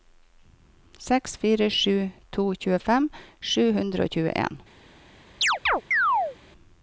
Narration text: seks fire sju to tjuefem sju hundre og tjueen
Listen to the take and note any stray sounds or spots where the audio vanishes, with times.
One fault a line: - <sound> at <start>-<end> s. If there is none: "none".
- chirp at 5.4-6.4 s